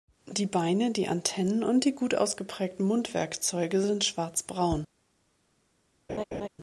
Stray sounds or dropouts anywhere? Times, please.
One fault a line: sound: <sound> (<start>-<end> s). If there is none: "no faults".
sound: laugh (6.1-6.5 s)